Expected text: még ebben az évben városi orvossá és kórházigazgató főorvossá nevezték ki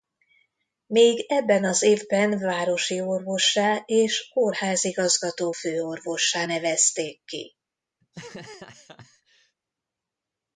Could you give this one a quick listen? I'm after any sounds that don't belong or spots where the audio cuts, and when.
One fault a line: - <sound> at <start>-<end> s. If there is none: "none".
- laugh at 8.0-9.6 s